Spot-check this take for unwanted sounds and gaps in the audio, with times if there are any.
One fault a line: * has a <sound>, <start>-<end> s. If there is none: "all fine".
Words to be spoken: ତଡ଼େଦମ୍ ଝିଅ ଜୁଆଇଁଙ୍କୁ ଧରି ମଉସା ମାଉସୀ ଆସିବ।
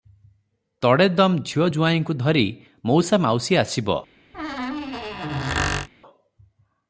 * has a squeak, 4.3-5.9 s